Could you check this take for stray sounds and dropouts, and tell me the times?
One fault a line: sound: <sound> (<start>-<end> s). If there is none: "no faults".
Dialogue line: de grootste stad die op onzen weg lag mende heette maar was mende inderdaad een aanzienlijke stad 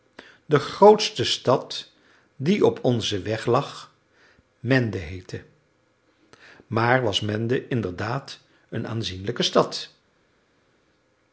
no faults